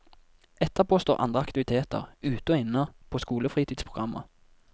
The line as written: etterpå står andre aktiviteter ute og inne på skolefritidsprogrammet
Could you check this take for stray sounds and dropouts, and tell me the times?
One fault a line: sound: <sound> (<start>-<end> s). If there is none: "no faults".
no faults